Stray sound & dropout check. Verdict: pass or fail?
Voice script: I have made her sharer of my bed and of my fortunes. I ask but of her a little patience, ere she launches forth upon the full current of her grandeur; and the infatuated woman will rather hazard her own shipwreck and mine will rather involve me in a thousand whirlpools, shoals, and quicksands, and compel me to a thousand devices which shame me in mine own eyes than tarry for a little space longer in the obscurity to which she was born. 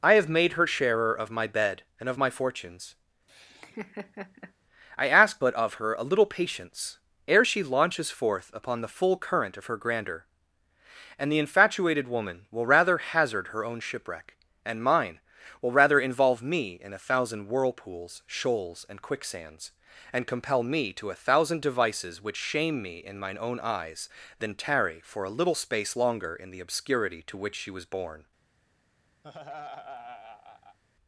fail